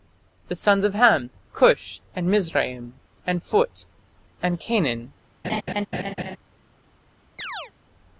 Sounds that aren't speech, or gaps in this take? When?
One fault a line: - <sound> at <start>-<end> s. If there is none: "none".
- laugh at 5.4-6.4 s
- chirp at 7.4-7.7 s